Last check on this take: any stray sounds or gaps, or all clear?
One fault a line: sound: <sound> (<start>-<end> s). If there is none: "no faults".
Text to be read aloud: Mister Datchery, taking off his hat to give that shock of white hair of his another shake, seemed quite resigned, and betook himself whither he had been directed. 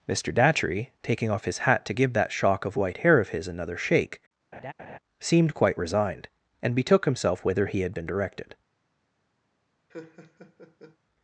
sound: laugh (4.5-5.0 s)
sound: laugh (9.9-11.0 s)